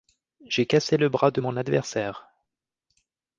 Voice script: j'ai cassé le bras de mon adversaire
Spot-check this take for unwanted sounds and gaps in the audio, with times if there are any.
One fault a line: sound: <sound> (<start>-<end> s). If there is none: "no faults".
no faults